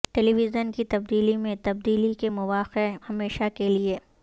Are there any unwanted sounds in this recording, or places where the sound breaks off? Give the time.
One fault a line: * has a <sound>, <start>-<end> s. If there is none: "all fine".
all fine